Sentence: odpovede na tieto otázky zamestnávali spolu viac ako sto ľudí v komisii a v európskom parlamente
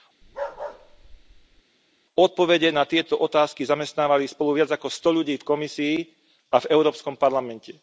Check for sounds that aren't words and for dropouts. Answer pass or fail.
fail